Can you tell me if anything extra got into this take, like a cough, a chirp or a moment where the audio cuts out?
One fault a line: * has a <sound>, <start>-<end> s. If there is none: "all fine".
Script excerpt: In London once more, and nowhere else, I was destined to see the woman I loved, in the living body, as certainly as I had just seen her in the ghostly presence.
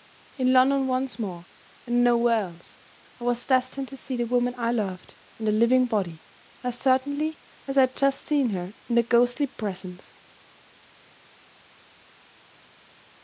all fine